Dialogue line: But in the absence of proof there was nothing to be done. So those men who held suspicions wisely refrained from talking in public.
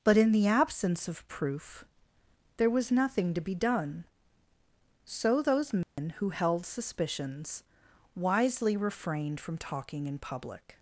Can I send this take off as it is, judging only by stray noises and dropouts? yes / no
no